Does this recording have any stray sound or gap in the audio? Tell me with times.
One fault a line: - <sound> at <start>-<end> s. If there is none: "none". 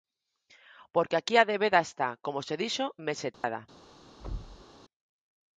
- dropout at 3.3-3.4 s
- thud at 4.2-4.7 s